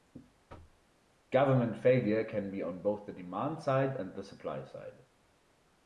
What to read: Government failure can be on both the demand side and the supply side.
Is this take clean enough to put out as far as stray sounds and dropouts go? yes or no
no